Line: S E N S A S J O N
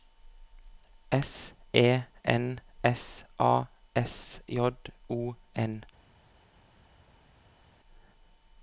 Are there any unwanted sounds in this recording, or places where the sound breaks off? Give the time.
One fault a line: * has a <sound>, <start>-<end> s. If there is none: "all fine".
all fine